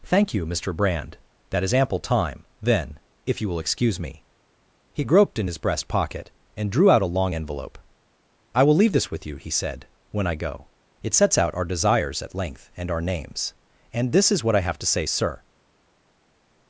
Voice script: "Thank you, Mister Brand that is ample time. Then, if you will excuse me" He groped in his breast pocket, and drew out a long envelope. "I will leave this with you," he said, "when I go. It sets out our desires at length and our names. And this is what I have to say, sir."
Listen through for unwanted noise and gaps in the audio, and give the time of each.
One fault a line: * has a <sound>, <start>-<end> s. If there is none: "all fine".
all fine